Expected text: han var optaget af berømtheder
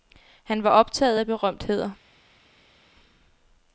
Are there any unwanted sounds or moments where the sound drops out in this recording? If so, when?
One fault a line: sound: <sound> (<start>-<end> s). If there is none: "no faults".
no faults